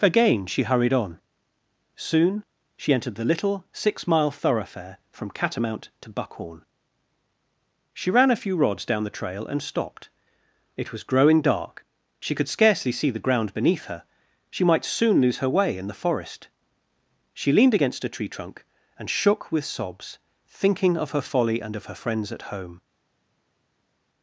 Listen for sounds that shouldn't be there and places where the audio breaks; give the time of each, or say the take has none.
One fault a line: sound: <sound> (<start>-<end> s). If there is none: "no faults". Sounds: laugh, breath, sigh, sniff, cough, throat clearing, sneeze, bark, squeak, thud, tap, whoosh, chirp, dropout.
no faults